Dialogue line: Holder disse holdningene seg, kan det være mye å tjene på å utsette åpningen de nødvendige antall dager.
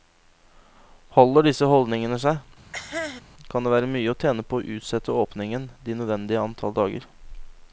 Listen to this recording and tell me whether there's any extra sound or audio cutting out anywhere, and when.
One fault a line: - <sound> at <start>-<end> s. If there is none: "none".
- cough at 2.7-3.2 s